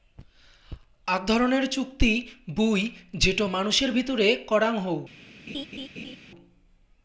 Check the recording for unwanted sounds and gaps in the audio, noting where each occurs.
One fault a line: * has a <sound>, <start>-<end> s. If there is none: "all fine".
* has a laugh, 5.5-6.2 s